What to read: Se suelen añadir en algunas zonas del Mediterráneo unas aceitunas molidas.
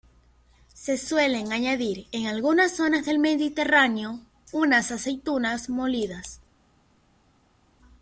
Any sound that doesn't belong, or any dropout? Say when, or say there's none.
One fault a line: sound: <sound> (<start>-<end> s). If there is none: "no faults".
no faults